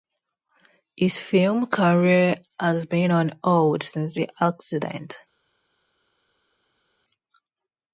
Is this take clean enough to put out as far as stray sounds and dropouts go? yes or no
yes